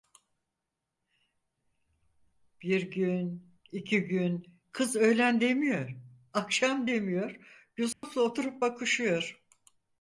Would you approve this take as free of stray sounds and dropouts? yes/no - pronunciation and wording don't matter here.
no